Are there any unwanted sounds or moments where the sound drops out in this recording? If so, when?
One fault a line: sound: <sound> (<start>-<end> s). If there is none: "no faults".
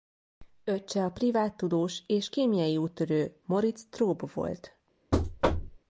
sound: thud (5.1-5.8 s)